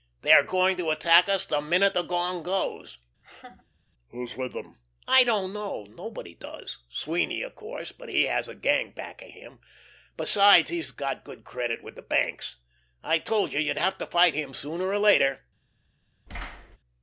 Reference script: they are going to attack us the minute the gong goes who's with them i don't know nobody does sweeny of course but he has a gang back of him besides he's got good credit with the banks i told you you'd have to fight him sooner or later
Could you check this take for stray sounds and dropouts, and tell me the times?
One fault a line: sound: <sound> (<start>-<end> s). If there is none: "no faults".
sound: laugh (3.2-3.8 s)
sound: thud (16.3-16.8 s)